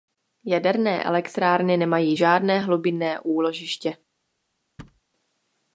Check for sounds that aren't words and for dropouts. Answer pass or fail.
fail